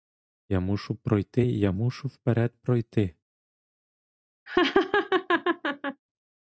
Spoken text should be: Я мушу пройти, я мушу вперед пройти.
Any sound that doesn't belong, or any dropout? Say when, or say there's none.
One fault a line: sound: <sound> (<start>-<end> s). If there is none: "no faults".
sound: laugh (4.5-6.0 s)